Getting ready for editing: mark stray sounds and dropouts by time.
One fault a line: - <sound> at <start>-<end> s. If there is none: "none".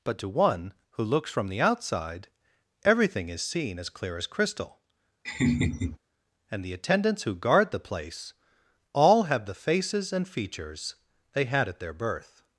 - laugh at 5.2-6.0 s